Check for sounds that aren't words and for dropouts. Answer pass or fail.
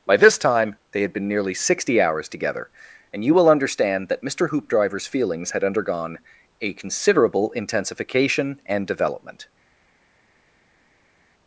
pass